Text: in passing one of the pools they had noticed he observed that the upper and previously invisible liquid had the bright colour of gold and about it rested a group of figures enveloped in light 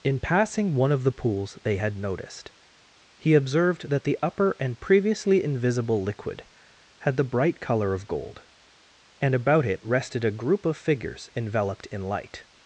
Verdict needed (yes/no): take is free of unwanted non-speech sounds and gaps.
yes